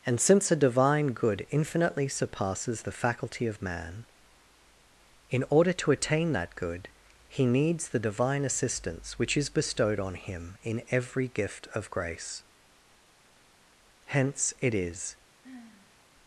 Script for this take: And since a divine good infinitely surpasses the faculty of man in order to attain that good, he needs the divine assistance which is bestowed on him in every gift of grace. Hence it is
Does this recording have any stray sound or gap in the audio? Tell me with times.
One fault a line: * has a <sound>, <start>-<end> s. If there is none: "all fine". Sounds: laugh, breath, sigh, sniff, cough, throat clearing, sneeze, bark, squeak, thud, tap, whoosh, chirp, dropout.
* has a sigh, 15.4-16.0 s